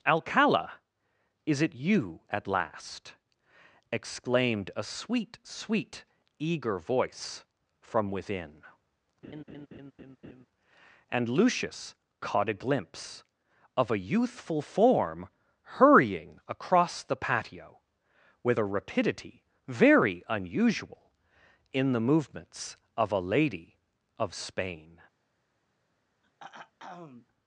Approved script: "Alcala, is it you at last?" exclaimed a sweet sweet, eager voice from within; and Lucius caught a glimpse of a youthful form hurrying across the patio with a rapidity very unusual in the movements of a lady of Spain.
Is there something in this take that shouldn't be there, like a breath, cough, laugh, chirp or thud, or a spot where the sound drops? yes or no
yes